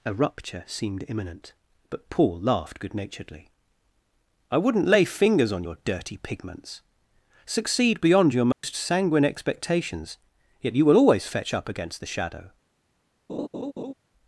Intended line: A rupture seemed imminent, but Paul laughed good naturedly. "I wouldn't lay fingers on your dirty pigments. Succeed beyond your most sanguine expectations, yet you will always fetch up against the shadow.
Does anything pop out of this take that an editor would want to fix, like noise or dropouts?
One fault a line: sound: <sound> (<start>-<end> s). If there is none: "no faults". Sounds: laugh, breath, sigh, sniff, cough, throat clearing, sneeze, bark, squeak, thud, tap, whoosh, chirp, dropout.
sound: dropout (8.5-8.6 s)
sound: laugh (13.3-13.9 s)